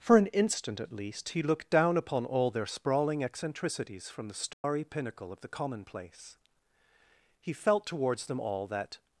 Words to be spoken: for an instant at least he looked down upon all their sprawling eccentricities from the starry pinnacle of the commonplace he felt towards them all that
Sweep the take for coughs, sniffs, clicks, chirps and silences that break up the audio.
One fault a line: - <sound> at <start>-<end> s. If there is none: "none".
- dropout at 4.5-4.6 s